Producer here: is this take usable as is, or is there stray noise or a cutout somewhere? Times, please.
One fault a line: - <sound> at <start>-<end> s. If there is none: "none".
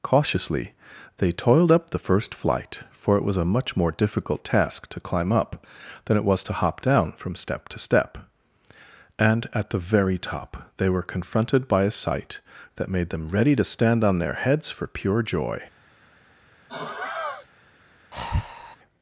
- sigh at 16.7-17.5 s
- breath at 18.1-18.8 s